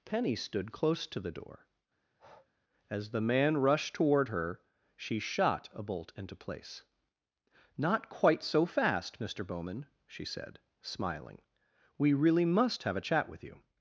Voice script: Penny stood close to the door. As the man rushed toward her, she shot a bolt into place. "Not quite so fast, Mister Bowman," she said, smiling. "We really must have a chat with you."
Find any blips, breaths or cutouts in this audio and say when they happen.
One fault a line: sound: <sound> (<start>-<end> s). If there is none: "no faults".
sound: breath (2.0-2.5 s)